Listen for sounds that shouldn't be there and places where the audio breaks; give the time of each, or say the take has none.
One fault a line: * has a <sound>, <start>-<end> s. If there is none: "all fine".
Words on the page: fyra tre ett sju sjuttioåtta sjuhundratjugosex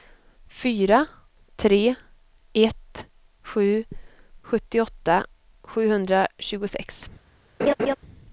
* has a laugh, 7.6-8.0 s